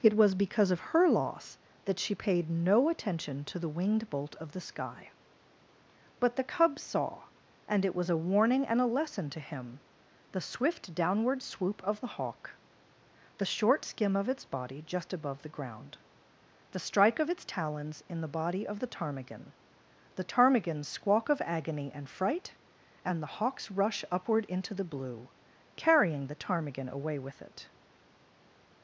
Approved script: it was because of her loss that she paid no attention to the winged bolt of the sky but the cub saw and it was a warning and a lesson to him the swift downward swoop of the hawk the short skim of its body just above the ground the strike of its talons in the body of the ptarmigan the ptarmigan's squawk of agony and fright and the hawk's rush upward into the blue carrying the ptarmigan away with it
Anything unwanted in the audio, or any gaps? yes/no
no